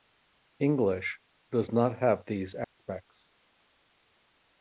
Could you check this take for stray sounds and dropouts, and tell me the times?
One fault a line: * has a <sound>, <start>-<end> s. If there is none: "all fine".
* has a dropout, 2.6-2.8 s